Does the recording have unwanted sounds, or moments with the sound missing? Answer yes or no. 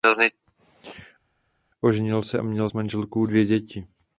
no